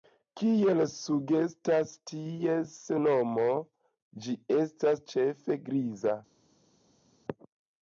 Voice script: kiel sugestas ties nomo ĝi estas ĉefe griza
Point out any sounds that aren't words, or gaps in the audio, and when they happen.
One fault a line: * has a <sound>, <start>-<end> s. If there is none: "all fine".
all fine